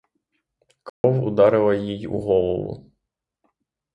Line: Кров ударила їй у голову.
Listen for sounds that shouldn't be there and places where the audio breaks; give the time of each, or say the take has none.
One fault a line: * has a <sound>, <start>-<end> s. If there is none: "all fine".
* has a dropout, 0.9-1.0 s